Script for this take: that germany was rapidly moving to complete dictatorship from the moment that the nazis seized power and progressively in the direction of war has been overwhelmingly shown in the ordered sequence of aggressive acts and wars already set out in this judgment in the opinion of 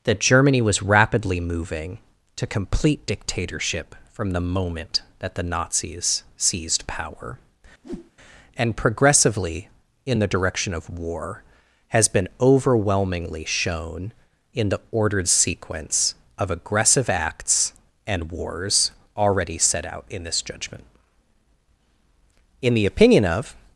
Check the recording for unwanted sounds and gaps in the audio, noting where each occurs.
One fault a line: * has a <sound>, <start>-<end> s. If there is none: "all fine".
* has a whoosh, 7.8-8.1 s